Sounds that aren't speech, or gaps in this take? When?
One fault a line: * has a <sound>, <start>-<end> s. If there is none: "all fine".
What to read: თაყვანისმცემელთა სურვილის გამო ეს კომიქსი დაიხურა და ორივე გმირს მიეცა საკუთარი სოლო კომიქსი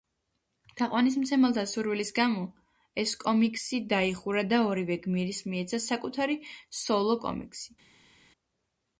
all fine